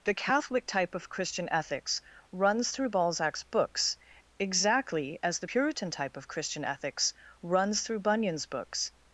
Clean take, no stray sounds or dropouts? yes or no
yes